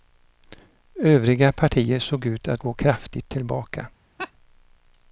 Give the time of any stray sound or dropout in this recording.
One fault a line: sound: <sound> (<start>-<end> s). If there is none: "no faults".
sound: laugh (4.2-4.3 s)